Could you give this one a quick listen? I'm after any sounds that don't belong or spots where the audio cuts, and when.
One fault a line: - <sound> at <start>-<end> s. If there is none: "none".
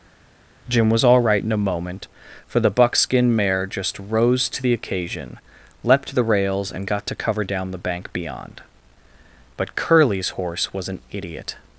none